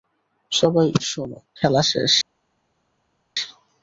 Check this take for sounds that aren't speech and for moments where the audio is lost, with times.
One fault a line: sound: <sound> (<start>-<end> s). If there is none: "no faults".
no faults